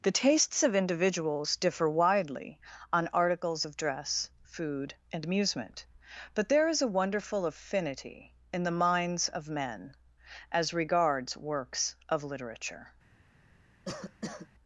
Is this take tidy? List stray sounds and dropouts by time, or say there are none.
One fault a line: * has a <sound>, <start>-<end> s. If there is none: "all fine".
* has a cough, 13.9-14.5 s